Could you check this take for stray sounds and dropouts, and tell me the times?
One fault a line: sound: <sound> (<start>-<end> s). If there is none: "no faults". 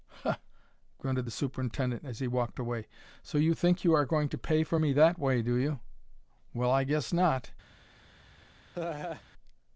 sound: laugh (8.7-9.2 s)